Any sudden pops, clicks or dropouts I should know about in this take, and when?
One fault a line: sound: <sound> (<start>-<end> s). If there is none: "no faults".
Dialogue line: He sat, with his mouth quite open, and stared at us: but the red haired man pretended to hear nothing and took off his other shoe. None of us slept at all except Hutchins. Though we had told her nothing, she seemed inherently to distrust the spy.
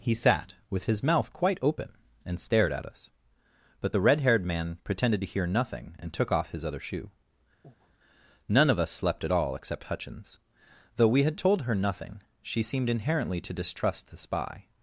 sound: breath (7.6-7.9 s)